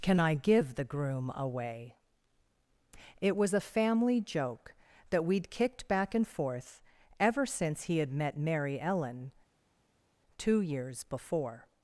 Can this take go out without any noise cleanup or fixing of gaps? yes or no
yes